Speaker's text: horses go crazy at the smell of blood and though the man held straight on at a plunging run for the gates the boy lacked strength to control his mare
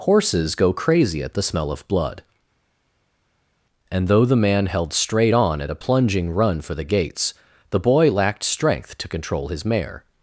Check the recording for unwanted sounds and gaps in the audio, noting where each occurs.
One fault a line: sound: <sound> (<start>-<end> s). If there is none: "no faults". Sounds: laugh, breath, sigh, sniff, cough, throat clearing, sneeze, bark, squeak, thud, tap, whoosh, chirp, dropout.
no faults